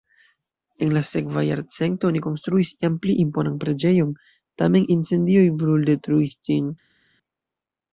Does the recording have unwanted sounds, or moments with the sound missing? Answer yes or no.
no